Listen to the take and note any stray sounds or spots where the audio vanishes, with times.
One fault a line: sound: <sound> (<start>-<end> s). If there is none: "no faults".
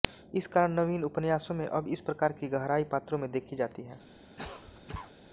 sound: cough (4.4-5.1 s)